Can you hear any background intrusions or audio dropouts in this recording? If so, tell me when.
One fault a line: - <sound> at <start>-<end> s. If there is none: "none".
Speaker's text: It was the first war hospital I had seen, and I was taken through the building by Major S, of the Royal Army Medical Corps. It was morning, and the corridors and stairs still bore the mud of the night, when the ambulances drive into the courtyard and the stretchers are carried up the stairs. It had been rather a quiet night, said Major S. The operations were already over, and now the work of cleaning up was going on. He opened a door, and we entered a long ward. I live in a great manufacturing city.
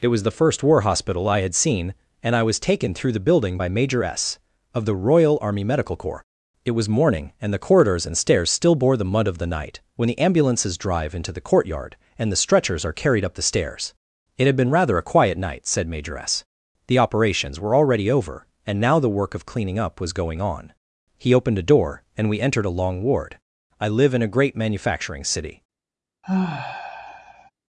- sigh at 26.2-27.5 s